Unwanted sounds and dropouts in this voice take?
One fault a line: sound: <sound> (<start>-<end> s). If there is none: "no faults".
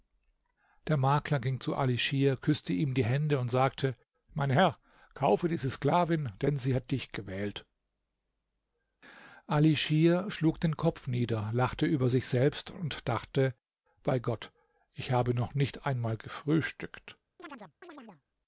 sound: chirp (17.4-18.2 s)